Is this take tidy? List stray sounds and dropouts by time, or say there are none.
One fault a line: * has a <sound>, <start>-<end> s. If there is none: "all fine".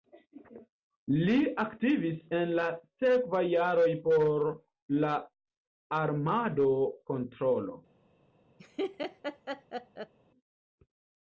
* has a laugh, 8.6-10.1 s